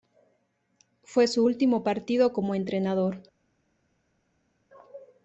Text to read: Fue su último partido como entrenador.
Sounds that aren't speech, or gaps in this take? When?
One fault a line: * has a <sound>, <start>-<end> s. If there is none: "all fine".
all fine